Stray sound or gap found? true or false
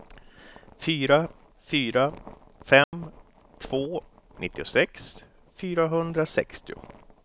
true